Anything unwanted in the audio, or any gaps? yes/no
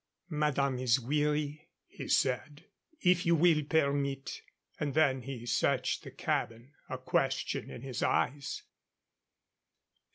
no